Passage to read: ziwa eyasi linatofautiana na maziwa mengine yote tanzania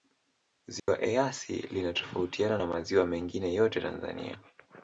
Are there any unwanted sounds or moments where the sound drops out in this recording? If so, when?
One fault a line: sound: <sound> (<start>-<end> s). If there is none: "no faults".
sound: dropout (0.8-0.9 s)